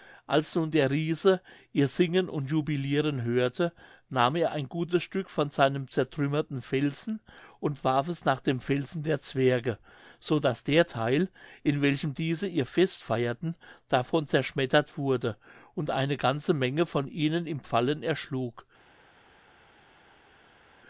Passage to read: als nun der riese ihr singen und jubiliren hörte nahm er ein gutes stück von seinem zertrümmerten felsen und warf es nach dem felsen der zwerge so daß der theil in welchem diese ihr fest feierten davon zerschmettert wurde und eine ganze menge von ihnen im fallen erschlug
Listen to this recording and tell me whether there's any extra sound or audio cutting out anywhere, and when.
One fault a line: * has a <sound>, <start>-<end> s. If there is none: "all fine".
all fine